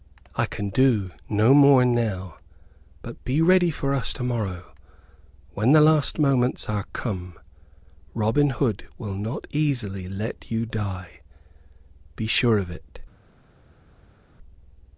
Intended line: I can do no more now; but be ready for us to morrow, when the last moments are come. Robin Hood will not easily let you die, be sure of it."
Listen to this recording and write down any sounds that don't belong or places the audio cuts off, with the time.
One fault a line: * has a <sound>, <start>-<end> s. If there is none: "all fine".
all fine